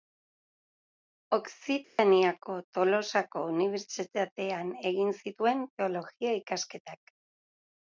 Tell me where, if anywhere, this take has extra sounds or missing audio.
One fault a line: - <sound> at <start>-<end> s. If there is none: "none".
- dropout at 1.8-2.0 s